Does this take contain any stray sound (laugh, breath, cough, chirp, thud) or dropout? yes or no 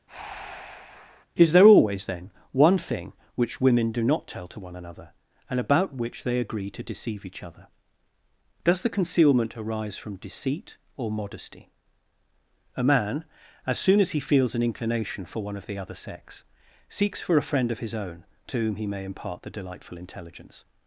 yes